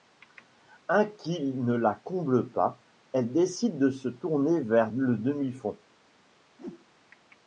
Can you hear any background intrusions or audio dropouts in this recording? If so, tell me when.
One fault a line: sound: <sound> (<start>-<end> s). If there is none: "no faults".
sound: whoosh (6.6-6.9 s)